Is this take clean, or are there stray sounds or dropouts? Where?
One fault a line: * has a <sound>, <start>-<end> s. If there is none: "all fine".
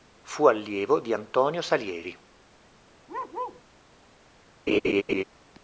* has a bark, 3.1-3.6 s
* has a laugh, 4.7-5.2 s